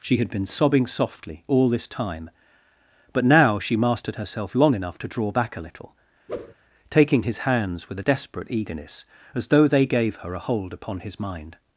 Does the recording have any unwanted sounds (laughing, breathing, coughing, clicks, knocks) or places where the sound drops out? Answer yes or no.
yes